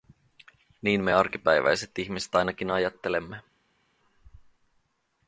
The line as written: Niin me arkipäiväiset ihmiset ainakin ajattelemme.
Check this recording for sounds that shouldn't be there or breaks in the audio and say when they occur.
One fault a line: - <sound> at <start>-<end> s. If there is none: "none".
none